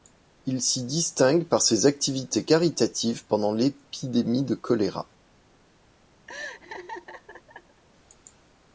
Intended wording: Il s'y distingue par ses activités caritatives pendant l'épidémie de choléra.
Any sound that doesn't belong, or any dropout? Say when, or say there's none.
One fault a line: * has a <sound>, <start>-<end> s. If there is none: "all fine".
* has a laugh, 6.3-7.8 s